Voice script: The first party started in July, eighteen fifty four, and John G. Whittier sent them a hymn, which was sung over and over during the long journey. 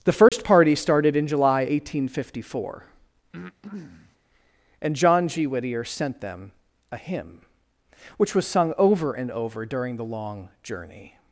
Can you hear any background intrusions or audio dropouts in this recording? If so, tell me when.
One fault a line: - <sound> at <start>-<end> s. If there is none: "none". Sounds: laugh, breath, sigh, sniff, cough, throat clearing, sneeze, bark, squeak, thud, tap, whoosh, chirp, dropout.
- dropout at 0.3-0.3 s
- breath at 3.3-4.2 s